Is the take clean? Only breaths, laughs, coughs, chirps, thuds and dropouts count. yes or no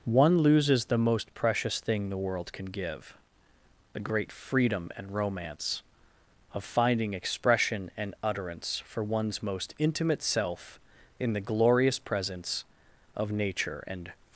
yes